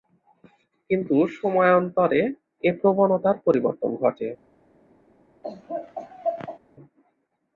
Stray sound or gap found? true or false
true